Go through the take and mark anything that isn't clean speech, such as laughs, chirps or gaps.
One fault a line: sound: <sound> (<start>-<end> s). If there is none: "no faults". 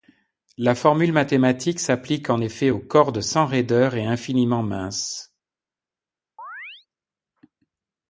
sound: chirp (6.4-6.9 s)